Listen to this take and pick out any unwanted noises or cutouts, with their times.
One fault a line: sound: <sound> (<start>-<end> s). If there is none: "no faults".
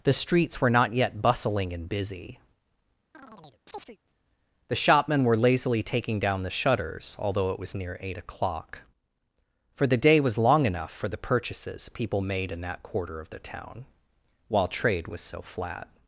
sound: chirp (3.1-4.0 s)